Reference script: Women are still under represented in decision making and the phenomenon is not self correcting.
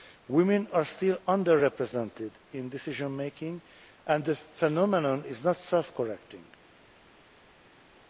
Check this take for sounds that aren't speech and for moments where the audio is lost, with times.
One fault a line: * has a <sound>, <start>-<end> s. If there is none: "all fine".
all fine